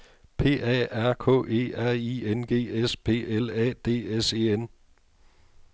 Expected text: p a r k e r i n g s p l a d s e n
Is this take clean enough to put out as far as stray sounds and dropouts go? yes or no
yes